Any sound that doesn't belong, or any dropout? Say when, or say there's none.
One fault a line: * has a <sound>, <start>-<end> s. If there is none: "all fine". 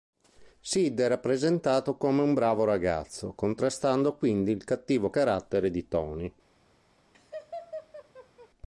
* has a laugh, 7.1-8.5 s